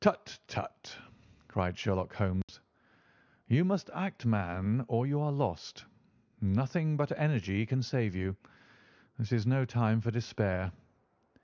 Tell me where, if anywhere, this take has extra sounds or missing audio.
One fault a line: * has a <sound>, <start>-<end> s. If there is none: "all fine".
* has a dropout, 2.4-2.5 s